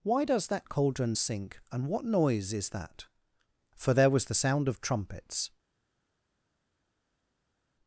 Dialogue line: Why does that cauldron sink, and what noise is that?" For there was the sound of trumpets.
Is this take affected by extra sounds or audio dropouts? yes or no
no